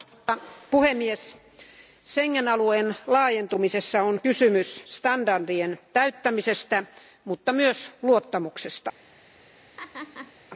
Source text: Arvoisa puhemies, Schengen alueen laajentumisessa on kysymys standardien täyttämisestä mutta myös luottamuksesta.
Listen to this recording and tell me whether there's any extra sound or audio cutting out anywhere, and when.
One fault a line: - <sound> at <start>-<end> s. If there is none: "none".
- laugh at 9.8-10.3 s